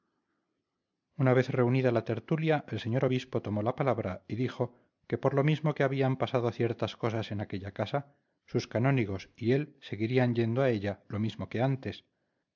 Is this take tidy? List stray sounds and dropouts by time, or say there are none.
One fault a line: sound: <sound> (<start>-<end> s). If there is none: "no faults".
no faults